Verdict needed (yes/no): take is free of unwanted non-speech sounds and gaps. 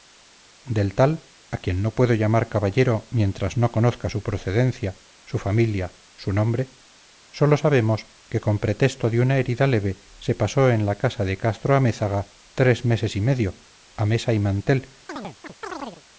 no